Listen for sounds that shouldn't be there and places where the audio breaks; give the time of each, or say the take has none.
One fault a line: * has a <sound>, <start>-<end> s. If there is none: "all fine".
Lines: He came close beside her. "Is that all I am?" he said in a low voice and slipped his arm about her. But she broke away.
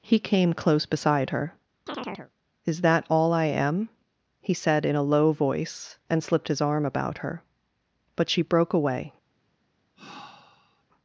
* has a chirp, 1.9-2.3 s
* has a sigh, 10.0-10.8 s